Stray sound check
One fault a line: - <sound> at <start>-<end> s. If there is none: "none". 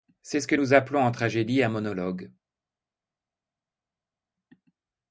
none